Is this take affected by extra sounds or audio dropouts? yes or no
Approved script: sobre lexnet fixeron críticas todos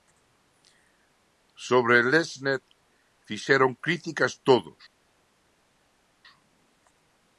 no